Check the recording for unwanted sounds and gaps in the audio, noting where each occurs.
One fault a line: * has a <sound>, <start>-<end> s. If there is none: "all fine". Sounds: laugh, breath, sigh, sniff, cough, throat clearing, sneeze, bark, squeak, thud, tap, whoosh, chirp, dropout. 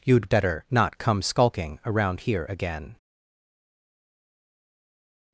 all fine